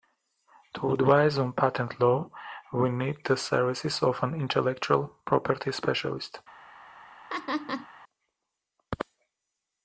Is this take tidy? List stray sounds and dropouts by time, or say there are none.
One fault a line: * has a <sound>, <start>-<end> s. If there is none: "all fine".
* has a laugh, 7.3-7.9 s